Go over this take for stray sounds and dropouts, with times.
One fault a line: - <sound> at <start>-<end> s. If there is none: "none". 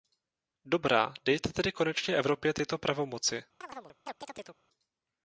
- chirp at 3.6-4.6 s